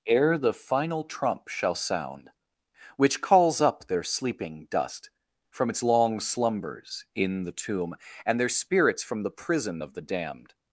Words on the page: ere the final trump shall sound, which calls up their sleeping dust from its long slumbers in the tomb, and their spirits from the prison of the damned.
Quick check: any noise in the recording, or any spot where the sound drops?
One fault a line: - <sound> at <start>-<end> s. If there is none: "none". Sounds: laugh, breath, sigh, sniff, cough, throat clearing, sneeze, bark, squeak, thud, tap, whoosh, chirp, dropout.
none